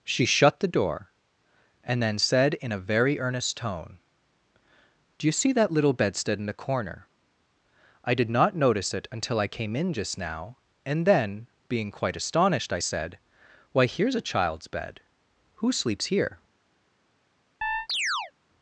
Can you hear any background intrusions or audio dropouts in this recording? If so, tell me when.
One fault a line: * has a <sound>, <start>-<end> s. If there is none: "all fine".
* has a chirp, 17.6-18.3 s